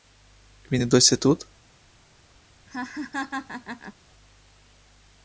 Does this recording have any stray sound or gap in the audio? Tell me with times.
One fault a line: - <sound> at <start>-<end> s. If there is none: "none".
- laugh at 2.7-3.9 s